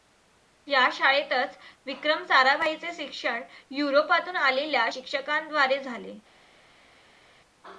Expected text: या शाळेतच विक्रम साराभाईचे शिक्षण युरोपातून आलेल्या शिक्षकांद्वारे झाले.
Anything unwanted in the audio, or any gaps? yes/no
no